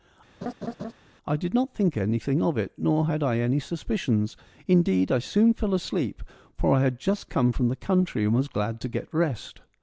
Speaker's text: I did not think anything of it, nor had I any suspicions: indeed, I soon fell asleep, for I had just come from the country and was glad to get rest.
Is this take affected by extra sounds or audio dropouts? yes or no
yes